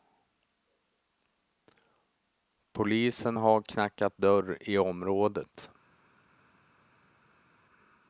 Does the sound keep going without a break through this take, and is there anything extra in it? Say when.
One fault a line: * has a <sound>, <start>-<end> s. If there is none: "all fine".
all fine